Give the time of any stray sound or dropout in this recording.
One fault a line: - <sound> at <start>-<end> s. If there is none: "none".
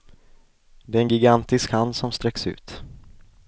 none